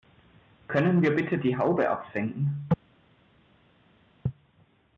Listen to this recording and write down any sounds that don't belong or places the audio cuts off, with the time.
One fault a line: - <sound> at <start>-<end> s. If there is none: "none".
none